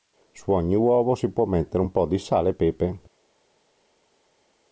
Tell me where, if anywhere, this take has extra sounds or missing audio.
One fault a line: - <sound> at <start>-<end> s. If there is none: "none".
none